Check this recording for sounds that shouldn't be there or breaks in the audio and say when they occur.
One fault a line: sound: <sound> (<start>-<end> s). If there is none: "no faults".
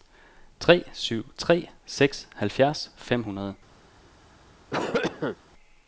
sound: cough (4.7-5.4 s)